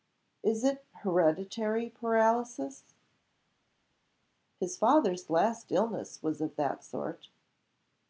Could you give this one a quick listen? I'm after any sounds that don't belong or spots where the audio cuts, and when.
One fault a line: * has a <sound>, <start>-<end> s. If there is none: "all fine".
all fine